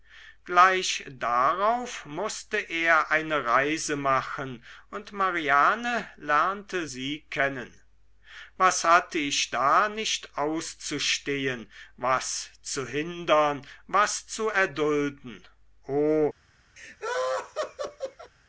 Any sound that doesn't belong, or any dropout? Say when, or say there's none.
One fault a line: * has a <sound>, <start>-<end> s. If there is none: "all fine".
* has a laugh, 16.8-18.3 s